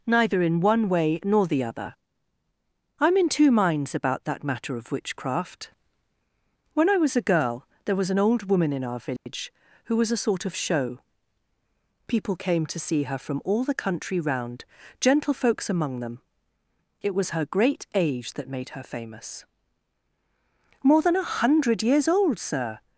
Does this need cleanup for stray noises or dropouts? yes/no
yes